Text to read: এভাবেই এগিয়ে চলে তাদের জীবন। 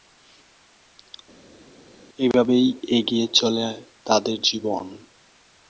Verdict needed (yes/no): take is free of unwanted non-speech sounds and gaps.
yes